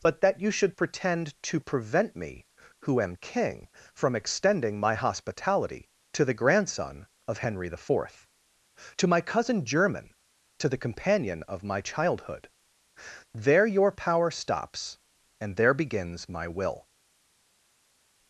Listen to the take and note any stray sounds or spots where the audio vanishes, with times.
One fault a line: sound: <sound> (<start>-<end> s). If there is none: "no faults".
no faults